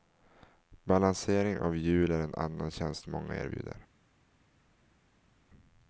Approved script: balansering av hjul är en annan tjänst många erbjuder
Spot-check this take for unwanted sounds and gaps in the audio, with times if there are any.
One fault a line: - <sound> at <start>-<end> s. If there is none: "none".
none